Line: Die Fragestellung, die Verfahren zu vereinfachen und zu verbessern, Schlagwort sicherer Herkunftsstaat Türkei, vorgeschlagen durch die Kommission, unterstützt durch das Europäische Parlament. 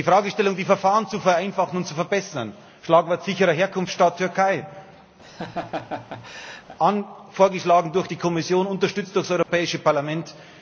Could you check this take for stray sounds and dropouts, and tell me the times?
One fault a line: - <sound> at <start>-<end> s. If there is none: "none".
- laugh at 5.2-6.8 s
- dropout at 9.4-9.5 s